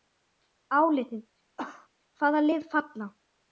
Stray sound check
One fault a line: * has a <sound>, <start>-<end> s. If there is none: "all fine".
* has a cough, 1.6-1.9 s